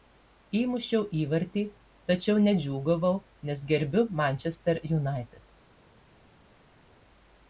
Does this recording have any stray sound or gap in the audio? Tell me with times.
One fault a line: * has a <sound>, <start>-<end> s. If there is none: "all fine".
all fine